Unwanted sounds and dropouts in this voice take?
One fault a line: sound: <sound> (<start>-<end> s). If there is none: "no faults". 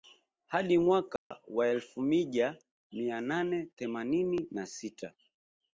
sound: dropout (1.2-1.3 s)